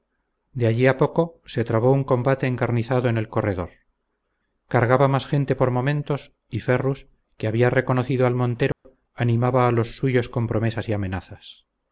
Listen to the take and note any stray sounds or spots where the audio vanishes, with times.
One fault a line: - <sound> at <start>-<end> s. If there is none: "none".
- dropout at 8.7-8.8 s